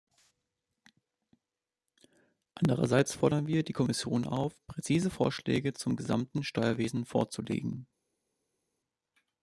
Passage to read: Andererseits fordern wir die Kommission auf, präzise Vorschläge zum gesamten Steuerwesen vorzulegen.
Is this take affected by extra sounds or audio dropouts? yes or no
no